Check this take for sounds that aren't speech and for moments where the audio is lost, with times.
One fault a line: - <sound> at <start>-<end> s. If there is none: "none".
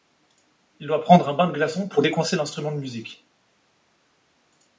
none